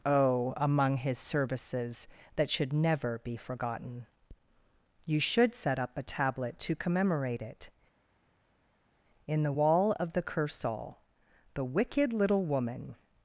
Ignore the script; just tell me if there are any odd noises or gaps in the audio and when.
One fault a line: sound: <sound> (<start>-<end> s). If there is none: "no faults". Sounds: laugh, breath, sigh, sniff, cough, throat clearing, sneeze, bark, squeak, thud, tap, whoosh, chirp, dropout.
no faults